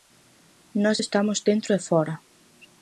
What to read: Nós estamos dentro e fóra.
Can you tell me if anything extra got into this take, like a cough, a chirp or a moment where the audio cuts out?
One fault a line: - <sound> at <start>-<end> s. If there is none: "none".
none